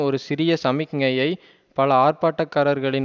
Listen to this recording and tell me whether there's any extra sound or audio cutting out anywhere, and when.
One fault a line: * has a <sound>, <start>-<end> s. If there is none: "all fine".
all fine